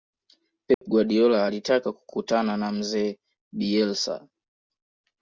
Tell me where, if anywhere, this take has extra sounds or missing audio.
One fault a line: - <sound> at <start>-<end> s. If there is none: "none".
- dropout at 0.7-0.8 s